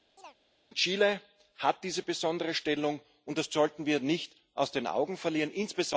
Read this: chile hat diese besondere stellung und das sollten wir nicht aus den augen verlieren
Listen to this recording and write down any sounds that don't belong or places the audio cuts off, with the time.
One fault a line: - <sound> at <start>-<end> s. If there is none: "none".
- chirp at 0.2-0.4 s